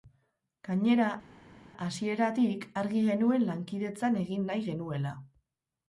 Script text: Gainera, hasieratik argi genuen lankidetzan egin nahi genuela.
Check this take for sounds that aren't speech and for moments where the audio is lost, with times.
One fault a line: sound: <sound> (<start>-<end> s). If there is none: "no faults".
no faults